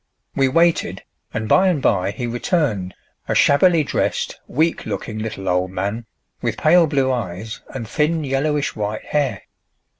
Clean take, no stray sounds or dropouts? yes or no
yes